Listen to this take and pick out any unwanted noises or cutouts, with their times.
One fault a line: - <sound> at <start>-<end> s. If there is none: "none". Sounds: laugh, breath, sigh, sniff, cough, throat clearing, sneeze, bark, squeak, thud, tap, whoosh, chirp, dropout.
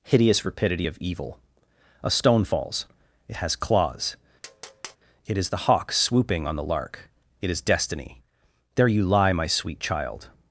- tap at 4.4-5.0 s